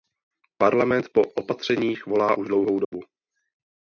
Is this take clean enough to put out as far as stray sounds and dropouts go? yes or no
no